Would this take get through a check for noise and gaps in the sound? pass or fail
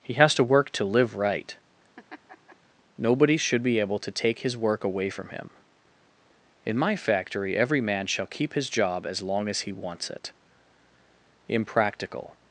fail